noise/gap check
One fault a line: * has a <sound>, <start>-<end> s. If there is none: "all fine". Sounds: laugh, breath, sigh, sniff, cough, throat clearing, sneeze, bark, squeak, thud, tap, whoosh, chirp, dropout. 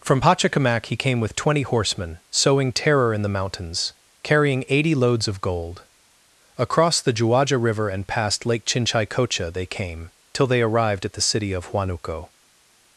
all fine